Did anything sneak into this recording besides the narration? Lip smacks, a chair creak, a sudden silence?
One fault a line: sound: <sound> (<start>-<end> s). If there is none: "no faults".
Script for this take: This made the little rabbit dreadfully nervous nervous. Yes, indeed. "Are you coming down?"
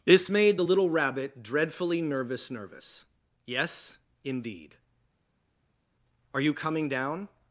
no faults